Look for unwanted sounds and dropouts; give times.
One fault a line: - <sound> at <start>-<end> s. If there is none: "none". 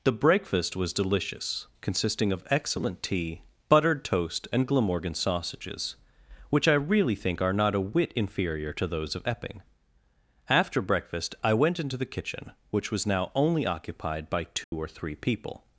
- dropout at 14.6-14.7 s